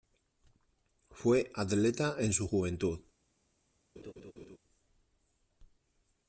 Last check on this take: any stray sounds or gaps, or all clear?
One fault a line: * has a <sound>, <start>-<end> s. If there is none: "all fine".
* has a laugh, 4.0-4.6 s